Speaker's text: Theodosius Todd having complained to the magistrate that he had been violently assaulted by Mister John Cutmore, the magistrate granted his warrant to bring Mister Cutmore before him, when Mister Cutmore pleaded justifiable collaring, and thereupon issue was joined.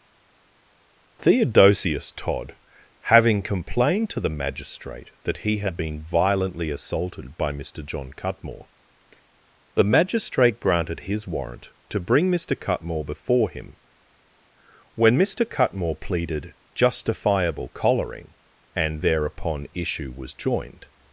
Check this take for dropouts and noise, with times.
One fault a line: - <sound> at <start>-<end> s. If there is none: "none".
none